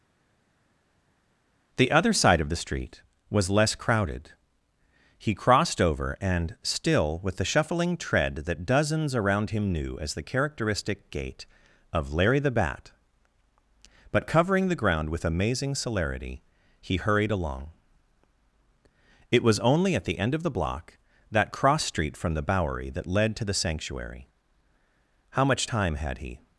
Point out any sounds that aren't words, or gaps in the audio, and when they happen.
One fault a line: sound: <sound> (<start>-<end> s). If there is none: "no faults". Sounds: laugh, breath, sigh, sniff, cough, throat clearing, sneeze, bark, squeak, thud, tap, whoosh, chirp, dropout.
no faults